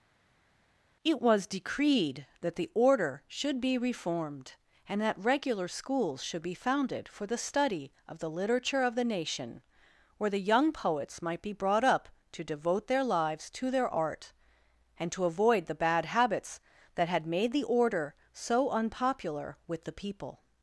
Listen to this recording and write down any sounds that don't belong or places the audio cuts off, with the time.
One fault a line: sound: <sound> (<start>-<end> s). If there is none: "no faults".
no faults